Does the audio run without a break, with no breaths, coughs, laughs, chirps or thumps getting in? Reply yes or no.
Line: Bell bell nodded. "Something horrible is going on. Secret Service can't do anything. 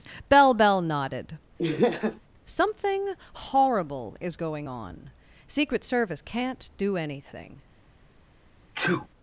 no